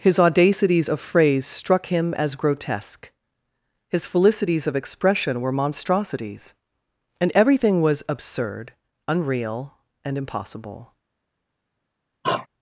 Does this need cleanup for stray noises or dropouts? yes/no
yes